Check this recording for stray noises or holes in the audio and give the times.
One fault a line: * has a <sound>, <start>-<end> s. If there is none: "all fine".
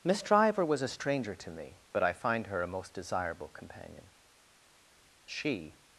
all fine